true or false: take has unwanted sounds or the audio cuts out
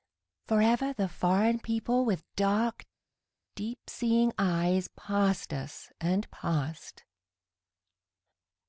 false